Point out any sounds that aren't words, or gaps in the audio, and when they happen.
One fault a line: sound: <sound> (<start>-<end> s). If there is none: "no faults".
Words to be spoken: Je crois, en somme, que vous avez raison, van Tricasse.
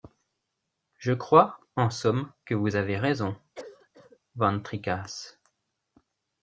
sound: cough (3.6-4.2 s)